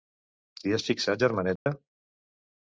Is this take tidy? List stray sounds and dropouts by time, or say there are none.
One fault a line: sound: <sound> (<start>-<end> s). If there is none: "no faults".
sound: dropout (1.6-1.7 s)